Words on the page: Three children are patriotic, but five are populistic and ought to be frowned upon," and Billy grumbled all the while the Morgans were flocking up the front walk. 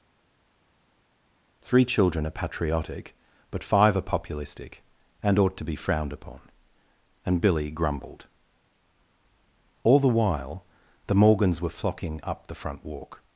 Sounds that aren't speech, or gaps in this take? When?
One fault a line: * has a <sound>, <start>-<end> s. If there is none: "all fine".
all fine